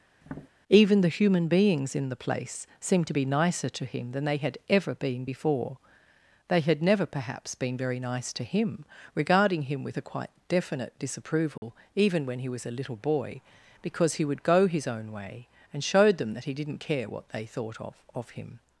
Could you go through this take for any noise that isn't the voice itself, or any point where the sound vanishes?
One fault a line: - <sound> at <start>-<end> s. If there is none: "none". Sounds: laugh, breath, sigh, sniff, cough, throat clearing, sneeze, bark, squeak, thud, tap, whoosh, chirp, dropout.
- tap at 0.2-0.5 s
- dropout at 11.6-11.6 s